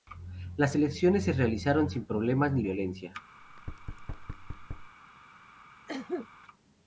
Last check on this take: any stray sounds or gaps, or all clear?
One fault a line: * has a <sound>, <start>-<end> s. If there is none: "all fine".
* has a thud, 3.4-4.9 s
* has a cough, 5.9-6.3 s